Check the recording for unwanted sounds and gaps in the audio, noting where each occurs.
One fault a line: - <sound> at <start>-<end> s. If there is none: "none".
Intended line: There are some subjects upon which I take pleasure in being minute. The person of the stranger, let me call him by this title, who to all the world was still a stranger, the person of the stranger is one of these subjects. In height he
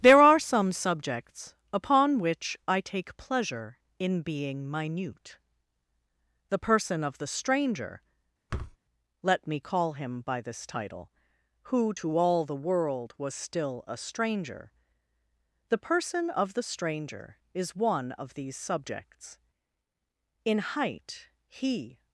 - thud at 8.5-8.8 s